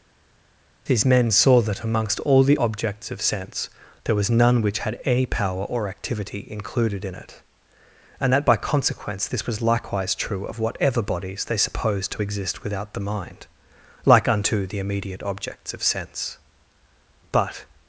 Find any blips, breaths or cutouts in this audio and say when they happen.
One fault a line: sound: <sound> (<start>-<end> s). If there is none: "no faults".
no faults